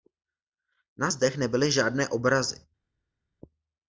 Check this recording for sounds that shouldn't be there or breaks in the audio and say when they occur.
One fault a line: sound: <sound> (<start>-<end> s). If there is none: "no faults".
no faults